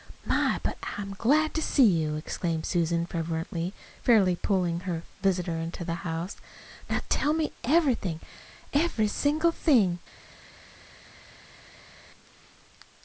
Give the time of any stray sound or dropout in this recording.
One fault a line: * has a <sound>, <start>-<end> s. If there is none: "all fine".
all fine